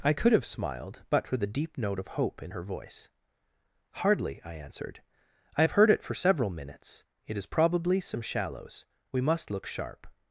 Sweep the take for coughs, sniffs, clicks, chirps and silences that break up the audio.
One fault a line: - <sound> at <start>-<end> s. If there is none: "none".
none